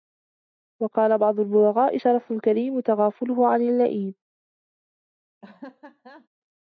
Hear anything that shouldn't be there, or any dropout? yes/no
yes